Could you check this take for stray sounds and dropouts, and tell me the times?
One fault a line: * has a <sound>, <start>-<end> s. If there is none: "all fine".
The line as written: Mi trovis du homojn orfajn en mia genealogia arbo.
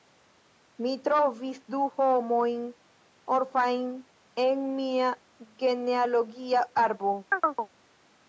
* has a chirp, 7.3-7.7 s